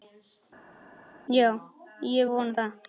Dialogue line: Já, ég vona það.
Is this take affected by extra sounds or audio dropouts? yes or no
no